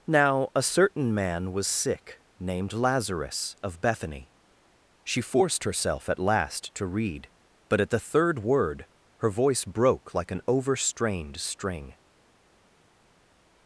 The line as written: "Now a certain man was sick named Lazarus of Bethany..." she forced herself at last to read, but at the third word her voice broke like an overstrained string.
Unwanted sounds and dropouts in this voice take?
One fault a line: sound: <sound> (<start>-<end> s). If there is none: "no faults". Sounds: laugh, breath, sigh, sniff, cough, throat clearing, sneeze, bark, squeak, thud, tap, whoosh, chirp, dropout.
no faults